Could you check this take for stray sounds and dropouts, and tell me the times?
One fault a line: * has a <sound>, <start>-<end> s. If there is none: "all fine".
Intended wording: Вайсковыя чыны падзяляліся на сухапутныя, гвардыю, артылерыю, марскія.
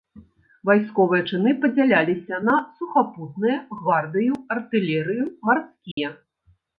* has a dropout, 5.9-6.0 s